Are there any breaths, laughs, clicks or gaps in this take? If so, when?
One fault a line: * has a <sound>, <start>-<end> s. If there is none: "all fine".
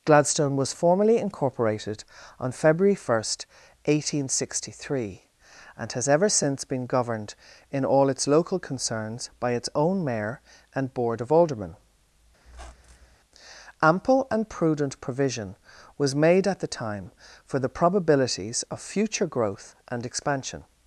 * has a squeak, 12.4-13.2 s